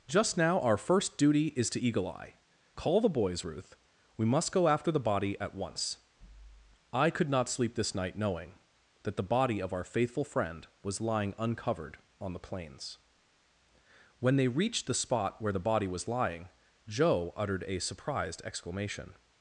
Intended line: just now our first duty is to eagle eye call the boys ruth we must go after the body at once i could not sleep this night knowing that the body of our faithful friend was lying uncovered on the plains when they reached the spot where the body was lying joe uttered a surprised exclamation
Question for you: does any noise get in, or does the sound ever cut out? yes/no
no